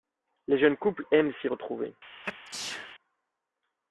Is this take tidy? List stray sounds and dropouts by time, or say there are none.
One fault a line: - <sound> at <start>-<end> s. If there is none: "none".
- sneeze at 2.2-3.0 s